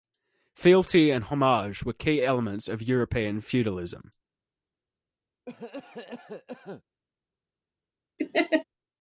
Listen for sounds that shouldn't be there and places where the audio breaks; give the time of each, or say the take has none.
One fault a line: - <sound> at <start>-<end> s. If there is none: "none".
- cough at 5.5-6.8 s
- laugh at 8.2-8.6 s